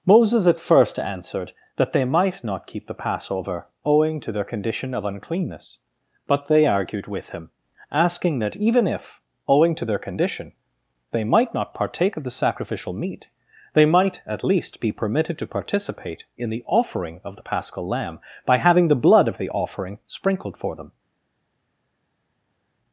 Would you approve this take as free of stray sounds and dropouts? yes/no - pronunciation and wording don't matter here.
yes